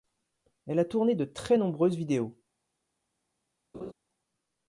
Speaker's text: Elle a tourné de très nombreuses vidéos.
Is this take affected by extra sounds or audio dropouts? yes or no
yes